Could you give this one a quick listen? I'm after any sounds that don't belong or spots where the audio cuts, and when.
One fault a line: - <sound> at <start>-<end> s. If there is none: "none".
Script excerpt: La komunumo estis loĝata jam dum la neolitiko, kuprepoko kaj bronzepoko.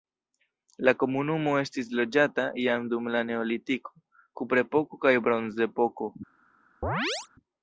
- chirp at 6.8-7.3 s